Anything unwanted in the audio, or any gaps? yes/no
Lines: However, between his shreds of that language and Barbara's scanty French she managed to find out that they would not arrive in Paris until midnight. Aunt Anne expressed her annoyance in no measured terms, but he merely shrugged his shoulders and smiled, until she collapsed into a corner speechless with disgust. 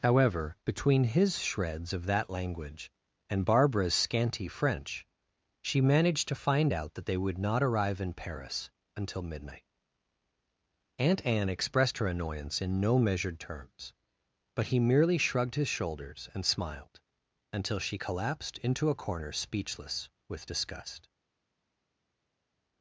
no